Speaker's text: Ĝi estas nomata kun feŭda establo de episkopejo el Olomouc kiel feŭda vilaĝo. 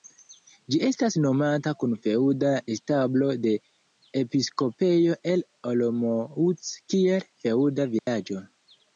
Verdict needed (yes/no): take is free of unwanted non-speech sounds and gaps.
no